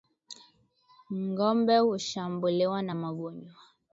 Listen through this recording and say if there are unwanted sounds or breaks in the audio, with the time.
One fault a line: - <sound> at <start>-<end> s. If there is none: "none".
none